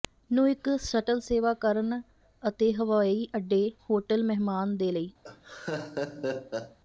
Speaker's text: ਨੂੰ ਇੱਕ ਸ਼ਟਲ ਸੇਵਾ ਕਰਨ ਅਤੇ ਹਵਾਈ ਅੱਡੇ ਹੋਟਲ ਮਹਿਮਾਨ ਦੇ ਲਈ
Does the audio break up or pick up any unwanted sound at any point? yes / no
yes